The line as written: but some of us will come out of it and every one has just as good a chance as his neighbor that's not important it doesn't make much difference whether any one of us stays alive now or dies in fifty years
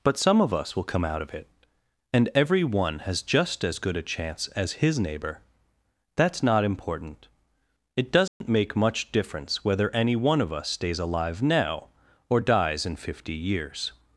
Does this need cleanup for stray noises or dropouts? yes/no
yes